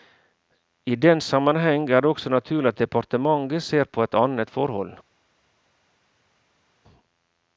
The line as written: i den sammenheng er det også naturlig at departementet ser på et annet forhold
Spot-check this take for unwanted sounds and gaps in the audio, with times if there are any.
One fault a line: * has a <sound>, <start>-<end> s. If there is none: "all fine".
all fine